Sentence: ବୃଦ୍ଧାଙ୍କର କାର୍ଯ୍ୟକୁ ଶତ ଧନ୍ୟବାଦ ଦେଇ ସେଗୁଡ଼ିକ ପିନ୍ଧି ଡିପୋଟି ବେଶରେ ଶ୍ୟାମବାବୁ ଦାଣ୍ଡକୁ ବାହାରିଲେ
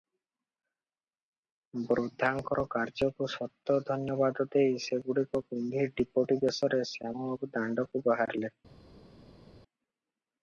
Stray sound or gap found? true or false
false